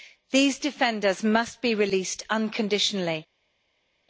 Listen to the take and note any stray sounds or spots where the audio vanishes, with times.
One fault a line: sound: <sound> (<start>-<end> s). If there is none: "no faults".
no faults